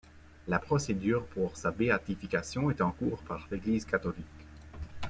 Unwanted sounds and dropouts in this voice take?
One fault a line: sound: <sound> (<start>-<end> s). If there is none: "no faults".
no faults